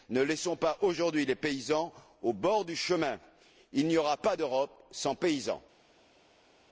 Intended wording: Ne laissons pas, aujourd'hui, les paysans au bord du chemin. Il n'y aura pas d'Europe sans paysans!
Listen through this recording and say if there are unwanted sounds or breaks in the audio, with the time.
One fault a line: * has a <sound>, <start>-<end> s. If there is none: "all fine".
all fine